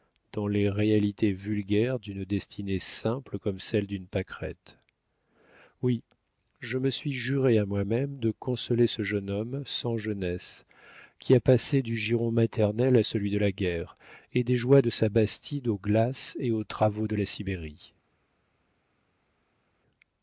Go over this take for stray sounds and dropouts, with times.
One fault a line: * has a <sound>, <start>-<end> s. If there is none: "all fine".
all fine